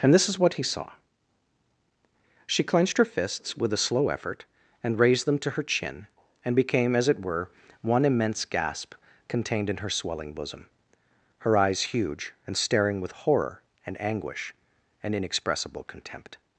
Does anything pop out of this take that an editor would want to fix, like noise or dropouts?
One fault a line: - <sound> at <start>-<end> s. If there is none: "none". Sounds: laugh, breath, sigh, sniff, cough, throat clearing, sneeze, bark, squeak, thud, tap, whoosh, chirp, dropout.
none